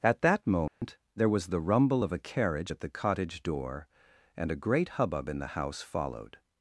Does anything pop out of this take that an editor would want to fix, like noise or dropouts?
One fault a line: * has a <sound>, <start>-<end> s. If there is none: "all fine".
* has a dropout, 0.7-0.8 s